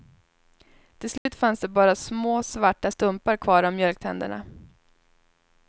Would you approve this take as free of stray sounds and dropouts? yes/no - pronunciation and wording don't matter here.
no